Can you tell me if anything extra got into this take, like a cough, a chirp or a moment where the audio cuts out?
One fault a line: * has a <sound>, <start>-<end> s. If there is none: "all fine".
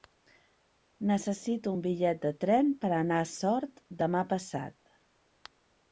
all fine